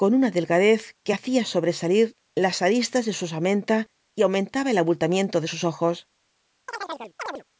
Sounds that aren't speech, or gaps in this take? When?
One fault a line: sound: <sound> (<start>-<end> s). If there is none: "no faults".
sound: chirp (6.7-7.4 s)